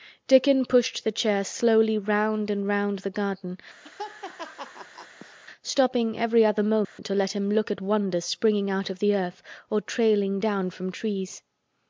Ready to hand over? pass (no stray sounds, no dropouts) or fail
fail